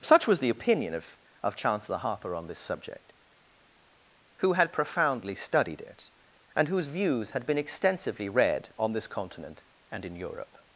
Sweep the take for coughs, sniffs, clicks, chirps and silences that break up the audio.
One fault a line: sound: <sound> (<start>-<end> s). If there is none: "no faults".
no faults